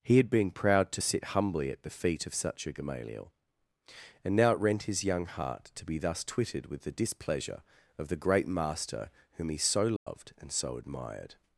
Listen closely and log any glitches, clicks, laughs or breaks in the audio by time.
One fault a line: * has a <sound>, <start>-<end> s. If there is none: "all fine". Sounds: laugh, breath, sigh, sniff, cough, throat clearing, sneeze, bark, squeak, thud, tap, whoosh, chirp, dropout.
* has a dropout, 10.0-10.1 s